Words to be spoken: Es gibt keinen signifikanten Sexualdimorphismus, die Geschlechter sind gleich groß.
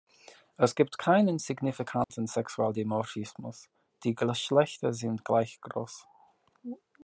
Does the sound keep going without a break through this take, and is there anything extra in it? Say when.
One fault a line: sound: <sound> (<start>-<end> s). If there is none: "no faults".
sound: dropout (2.0-2.1 s)